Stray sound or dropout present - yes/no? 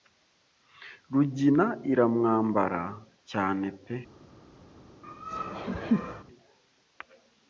yes